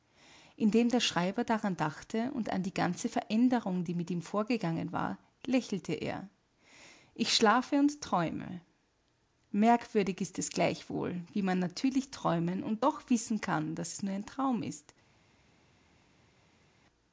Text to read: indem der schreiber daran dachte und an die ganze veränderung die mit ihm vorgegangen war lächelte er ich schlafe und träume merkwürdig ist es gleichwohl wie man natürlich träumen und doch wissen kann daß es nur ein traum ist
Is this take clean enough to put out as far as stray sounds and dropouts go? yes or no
yes